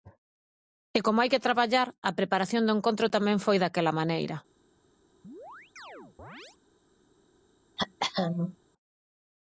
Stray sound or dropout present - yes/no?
yes